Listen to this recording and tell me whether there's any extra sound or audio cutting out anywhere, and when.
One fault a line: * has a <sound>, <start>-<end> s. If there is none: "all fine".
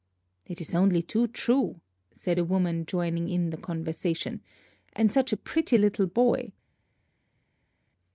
all fine